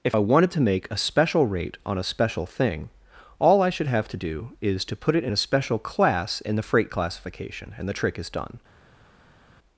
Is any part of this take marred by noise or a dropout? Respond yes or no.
no